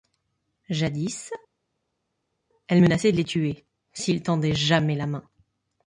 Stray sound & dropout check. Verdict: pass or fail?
pass